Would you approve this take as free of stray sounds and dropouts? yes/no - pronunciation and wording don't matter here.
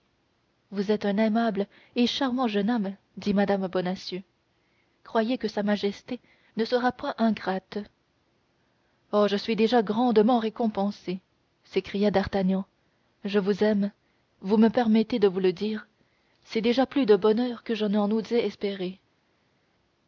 yes